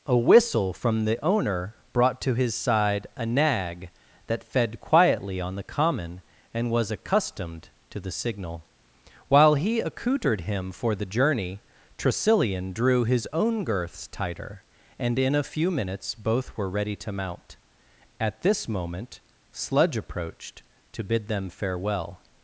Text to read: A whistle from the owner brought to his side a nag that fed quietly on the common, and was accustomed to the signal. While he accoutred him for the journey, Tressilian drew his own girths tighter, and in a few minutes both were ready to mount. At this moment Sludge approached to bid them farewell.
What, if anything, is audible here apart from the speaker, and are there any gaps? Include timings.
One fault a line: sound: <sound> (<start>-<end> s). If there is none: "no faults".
no faults